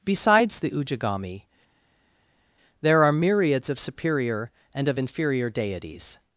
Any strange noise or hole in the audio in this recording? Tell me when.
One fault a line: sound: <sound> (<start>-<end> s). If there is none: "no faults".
no faults